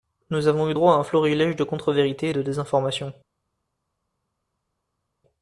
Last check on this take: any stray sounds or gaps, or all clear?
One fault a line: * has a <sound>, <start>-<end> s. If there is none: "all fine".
all fine